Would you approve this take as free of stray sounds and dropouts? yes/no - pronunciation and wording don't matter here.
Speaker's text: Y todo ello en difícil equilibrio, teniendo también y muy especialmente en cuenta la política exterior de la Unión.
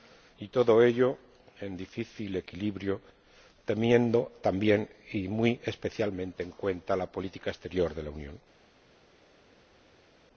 yes